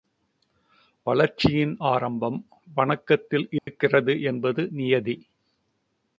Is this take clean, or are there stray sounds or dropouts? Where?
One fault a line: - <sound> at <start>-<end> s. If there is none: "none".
- dropout at 3.6-3.7 s